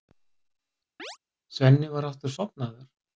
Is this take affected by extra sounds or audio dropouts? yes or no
yes